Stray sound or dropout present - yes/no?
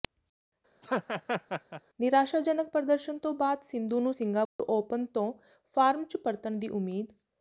yes